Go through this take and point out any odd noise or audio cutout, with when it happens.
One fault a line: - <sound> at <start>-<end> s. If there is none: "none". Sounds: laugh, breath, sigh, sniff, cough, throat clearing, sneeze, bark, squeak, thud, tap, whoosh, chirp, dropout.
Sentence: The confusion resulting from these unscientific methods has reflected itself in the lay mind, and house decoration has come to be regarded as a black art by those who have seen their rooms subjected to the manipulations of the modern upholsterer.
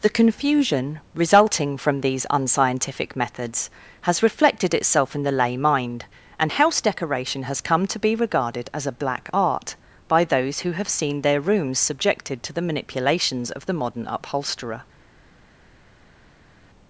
none